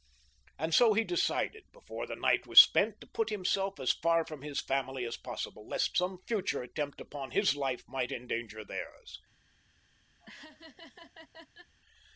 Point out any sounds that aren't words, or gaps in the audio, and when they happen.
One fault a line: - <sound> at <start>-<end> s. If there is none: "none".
- laugh at 10.2-11.7 s